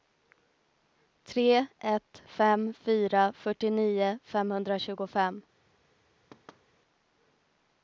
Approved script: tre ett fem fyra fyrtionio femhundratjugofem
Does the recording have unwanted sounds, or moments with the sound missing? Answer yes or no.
yes